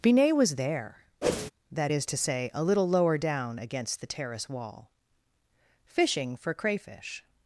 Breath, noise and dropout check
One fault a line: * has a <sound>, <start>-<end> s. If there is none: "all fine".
* has a whoosh, 1.2-1.5 s